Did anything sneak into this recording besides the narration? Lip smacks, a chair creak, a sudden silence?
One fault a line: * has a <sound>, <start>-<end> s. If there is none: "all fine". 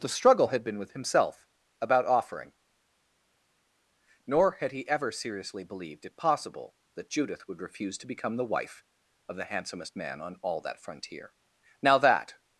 all fine